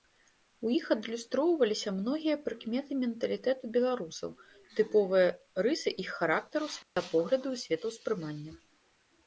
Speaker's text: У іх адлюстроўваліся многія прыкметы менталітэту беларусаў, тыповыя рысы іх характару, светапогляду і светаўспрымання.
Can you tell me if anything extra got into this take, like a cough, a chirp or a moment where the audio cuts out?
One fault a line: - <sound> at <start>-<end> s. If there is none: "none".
- dropout at 6.8-7.0 s